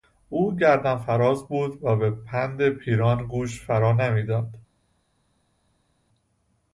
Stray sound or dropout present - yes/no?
no